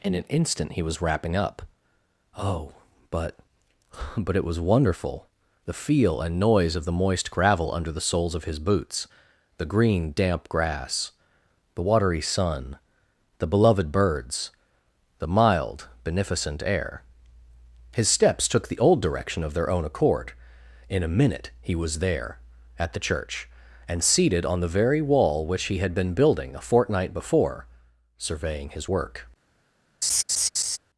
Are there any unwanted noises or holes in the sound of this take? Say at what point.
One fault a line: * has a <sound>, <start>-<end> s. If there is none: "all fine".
* has a laugh, 30.0-30.8 s